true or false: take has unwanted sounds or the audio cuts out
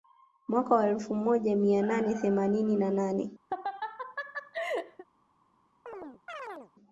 true